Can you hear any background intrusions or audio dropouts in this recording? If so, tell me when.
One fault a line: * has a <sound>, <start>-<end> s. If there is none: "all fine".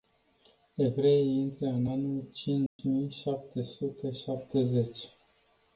* has a dropout, 2.7-2.8 s